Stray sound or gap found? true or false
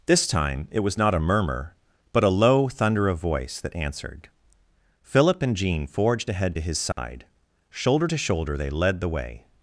true